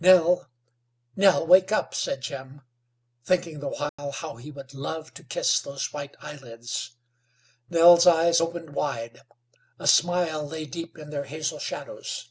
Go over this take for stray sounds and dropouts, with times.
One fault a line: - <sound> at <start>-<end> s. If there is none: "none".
- dropout at 3.9-4.0 s